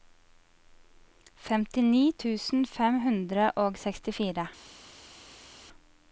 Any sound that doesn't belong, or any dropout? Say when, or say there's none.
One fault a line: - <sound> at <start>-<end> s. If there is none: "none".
none